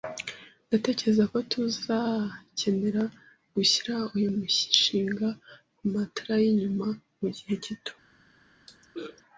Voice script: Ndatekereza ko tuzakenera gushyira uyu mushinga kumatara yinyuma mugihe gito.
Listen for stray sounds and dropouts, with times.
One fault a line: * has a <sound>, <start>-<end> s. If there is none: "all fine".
* has a throat clearing, 8.7-9.2 s